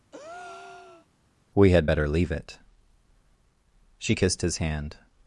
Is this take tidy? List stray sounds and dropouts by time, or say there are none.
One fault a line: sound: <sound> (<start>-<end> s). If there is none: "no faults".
sound: breath (0.1-1.1 s)